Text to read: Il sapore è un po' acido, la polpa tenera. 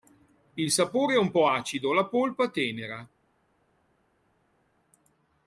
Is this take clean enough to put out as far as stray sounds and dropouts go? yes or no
yes